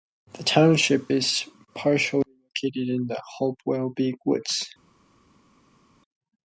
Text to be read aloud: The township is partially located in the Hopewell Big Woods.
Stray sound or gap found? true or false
false